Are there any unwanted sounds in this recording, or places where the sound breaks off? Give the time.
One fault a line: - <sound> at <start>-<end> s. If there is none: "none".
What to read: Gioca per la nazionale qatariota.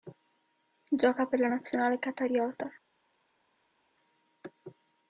none